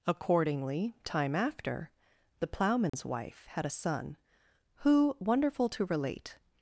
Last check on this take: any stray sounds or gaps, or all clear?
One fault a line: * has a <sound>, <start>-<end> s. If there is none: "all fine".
* has a dropout, 2.9-2.9 s